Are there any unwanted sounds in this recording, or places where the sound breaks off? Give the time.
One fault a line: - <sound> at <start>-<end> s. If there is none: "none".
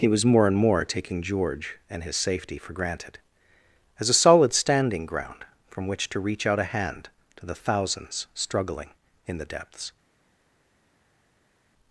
none